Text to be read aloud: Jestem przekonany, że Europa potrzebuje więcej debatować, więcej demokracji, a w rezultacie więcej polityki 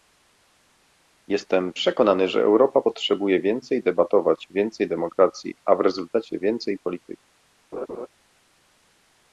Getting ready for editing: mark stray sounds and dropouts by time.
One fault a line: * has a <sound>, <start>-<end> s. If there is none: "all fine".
* has a laugh, 7.7-8.1 s